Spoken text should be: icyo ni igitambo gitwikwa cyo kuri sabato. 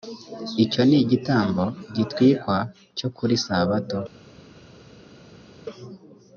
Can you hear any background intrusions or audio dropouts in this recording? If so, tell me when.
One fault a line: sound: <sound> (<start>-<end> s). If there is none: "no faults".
no faults